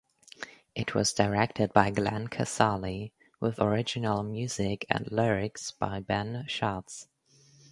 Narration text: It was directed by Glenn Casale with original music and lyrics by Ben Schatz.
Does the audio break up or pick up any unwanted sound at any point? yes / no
no